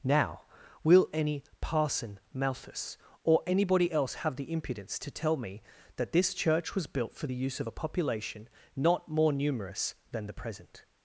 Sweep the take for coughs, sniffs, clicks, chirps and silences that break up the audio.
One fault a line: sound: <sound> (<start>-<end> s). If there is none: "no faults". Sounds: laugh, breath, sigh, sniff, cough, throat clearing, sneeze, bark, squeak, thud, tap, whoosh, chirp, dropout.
no faults